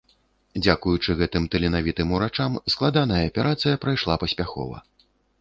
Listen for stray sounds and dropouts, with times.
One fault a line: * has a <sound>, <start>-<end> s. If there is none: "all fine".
all fine